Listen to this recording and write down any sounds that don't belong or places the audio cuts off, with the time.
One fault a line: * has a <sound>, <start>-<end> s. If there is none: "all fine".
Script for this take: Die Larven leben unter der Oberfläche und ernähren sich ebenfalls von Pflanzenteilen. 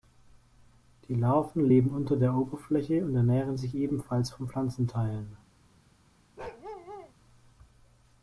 * has a bark, 6.4-7.1 s